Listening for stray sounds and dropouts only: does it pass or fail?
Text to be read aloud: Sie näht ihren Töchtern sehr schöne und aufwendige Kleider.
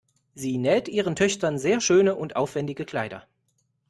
pass